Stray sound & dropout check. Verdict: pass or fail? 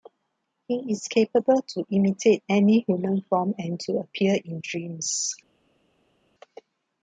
pass